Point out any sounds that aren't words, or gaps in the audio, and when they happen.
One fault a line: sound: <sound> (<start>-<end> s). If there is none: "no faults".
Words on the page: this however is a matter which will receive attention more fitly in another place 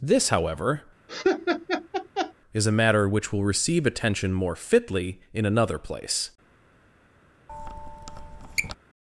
sound: laugh (1.1-2.3 s)
sound: squeak (7.5-8.8 s)